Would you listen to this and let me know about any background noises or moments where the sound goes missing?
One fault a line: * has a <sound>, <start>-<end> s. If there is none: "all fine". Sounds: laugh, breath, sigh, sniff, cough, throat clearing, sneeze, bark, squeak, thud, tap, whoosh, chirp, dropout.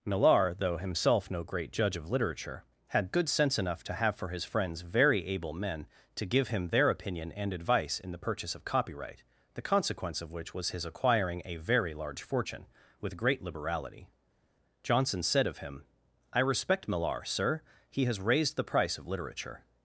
all fine